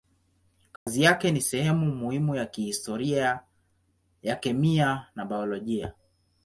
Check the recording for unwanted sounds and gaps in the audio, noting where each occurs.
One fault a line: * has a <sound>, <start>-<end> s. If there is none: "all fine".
* has a dropout, 0.8-0.9 s